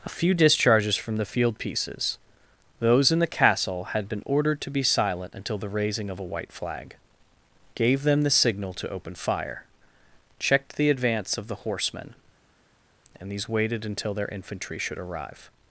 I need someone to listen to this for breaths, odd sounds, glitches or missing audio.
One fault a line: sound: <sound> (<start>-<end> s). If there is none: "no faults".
no faults